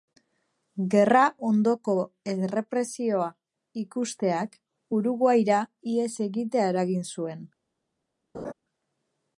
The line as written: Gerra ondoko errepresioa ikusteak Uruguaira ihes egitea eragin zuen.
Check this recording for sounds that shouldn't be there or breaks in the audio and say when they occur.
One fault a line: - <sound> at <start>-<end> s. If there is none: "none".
- laugh at 8.3-8.5 s